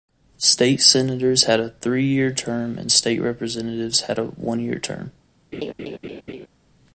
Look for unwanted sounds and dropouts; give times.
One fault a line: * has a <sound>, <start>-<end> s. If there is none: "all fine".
* has a laugh, 5.5-6.5 s